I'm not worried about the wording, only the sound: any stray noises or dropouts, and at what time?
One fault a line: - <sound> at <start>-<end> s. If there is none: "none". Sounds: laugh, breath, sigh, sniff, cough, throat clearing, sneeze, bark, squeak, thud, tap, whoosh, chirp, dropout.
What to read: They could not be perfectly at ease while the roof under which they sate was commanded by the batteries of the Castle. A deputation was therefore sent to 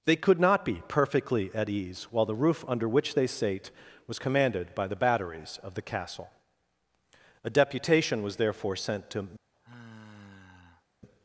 - sigh at 9.5-10.8 s